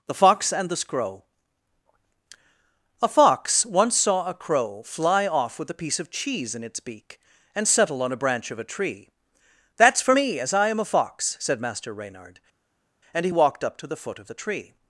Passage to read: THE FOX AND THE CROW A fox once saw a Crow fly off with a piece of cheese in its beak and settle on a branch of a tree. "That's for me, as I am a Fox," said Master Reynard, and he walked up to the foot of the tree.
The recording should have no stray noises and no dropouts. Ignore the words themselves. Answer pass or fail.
pass